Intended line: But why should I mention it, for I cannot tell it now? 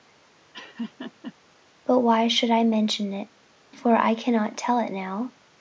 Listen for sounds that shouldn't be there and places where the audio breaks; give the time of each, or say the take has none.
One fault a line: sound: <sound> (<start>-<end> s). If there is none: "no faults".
sound: laugh (0.5-1.3 s)